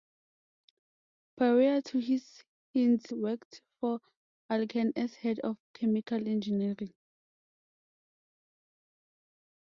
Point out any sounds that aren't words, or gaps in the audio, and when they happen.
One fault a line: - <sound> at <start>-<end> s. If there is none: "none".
none